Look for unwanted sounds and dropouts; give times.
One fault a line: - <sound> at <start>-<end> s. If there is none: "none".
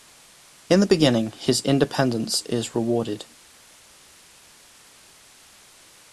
none